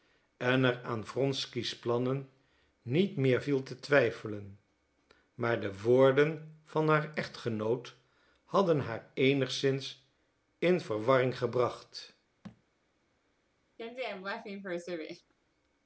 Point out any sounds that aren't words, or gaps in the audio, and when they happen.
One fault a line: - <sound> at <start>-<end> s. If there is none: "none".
- thud at 12.4-12.6 s
- laugh at 13.8-15.3 s